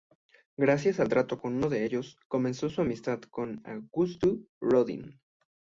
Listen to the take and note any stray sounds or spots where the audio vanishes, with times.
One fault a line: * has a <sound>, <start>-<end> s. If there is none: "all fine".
all fine